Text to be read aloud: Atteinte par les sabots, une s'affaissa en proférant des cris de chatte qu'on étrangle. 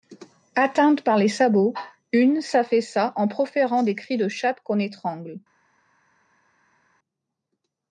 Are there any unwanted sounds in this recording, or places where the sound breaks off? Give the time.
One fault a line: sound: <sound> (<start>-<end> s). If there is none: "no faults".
no faults